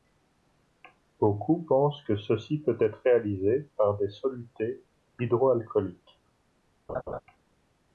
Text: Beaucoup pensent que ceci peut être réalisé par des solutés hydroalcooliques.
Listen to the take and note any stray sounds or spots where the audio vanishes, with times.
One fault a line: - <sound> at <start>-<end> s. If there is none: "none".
- laugh at 6.9-7.2 s